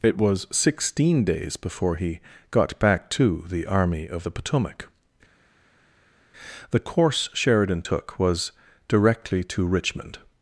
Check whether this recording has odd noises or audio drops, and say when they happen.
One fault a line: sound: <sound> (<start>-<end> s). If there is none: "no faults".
no faults